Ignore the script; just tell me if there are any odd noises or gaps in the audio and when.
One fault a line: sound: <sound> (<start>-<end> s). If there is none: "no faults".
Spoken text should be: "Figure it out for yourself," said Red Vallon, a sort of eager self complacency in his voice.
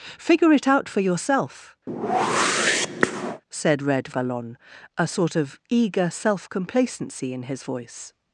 sound: whoosh (1.9-3.4 s)